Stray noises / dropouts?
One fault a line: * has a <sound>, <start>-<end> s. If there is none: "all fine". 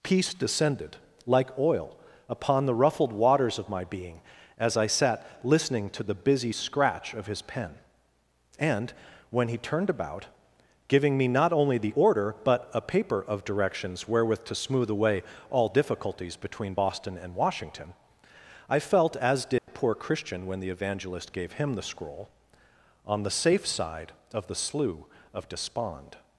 * has a dropout, 19.6-19.7 s